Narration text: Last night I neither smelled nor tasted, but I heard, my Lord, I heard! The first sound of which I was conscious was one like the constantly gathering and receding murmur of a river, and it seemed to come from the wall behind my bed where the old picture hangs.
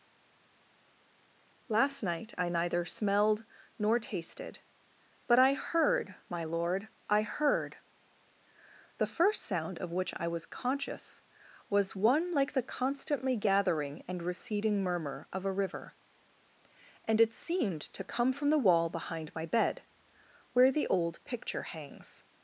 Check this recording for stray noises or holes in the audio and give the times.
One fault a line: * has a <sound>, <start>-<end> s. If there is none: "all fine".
all fine